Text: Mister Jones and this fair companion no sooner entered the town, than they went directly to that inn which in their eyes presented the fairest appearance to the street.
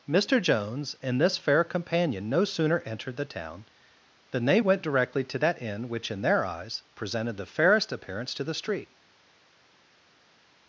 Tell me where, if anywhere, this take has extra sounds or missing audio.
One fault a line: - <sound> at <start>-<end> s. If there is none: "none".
none